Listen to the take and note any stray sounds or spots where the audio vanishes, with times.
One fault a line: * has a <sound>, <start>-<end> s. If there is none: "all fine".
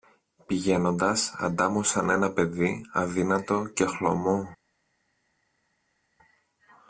all fine